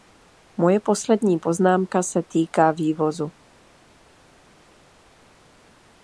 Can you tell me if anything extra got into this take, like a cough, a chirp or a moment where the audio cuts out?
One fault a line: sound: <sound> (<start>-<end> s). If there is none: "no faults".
no faults